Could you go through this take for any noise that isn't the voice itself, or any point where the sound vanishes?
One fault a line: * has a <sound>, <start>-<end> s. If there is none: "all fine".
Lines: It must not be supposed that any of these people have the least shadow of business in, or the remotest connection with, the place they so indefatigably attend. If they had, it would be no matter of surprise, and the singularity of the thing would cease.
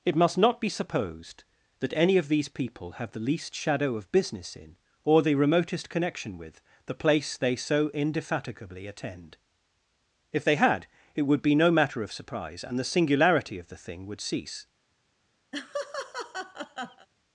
* has a laugh, 15.5-17.1 s